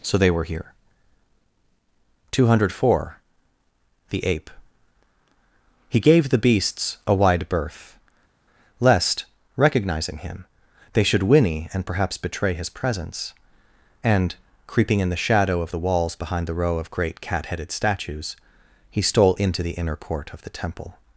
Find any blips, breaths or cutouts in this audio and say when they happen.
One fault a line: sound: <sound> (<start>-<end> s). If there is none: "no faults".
no faults